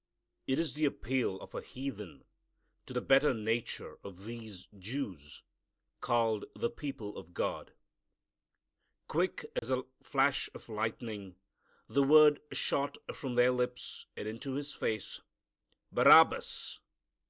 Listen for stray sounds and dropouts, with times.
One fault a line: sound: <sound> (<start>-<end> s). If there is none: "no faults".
sound: dropout (9.6-9.6 s)